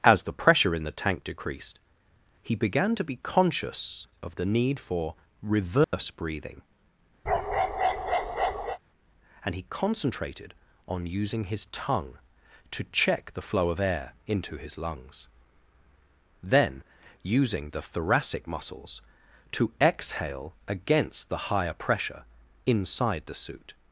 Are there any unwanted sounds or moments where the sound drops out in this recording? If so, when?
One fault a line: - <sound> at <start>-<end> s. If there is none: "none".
- dropout at 5.8-5.9 s
- bark at 7.3-8.8 s